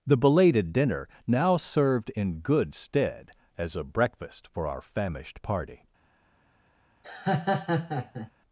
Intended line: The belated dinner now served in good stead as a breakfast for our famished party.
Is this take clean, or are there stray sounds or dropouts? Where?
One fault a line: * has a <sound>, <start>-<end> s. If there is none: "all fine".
* has a laugh, 7.0-8.3 s